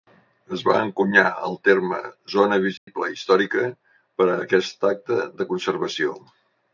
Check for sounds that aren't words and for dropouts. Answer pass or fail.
fail